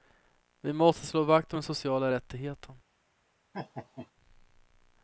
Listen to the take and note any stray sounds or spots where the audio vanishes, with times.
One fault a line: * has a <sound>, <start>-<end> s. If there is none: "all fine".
* has a laugh, 3.5-4.1 s